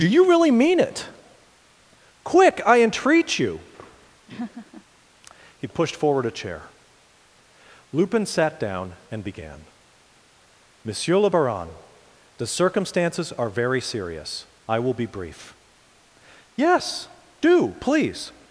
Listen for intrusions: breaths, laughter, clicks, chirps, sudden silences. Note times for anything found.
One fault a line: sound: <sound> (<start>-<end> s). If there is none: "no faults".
sound: laugh (4.3-4.8 s)